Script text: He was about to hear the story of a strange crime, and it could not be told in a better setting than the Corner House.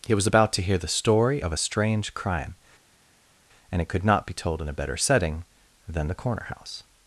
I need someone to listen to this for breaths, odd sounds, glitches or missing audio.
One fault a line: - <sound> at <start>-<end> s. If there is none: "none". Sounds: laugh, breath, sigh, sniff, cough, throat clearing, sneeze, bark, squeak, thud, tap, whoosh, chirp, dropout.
none